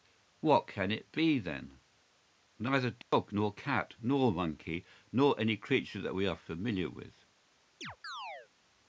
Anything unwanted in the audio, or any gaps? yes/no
yes